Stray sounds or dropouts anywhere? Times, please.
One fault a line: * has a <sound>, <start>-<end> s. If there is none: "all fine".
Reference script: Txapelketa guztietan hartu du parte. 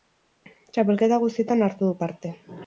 all fine